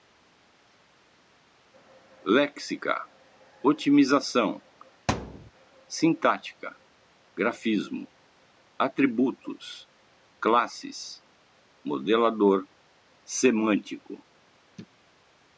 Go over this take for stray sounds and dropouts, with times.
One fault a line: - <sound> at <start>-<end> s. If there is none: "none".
- thud at 5.1-5.5 s